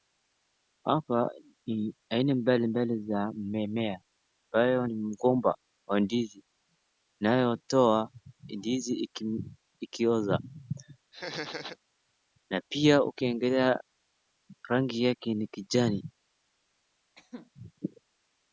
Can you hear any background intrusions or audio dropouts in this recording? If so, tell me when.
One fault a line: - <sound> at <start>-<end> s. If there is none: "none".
- laugh at 11.1-11.8 s
- cough at 17.2-17.5 s